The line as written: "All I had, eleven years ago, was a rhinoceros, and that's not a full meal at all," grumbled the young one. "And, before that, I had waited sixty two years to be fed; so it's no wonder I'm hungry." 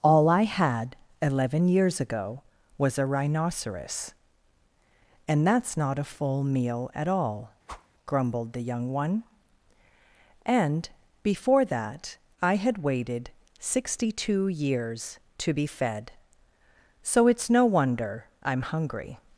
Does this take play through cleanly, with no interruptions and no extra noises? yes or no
no